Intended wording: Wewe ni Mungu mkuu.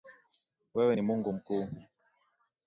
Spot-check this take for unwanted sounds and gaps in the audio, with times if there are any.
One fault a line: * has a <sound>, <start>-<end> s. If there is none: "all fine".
all fine